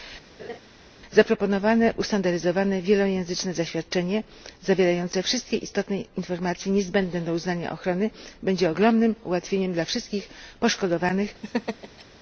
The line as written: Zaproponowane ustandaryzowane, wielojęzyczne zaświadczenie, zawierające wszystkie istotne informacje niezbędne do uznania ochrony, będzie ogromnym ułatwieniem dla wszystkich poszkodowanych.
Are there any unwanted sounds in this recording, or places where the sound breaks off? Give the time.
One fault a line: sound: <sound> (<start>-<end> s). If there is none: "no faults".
sound: laugh (0.4-0.6 s)
sound: laugh (11.4-12.0 s)